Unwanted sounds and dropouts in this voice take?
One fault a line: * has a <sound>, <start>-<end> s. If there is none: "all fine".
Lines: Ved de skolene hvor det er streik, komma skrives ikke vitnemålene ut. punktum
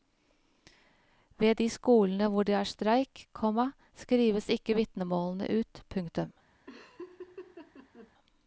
* has a laugh, 6.7-8.1 s